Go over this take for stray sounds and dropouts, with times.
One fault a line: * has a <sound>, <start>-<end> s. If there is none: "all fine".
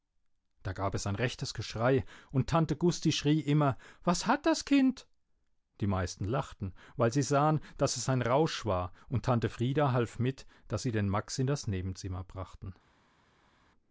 all fine